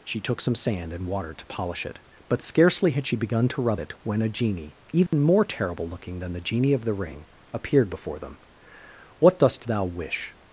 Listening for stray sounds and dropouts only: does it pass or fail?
fail